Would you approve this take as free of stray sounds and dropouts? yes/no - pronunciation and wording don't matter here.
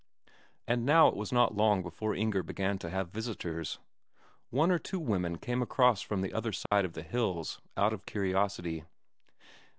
no